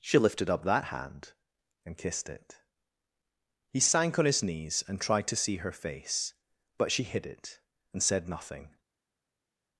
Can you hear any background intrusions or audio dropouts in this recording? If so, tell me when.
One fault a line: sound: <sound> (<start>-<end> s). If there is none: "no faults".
no faults